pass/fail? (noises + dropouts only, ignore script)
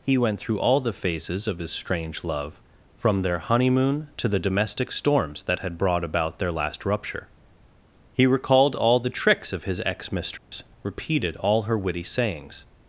fail